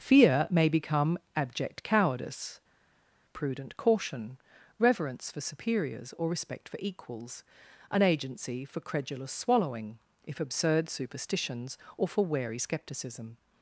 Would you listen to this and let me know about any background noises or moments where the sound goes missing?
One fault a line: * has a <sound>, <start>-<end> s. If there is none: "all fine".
all fine